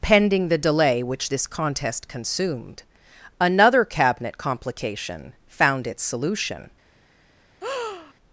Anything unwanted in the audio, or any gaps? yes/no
yes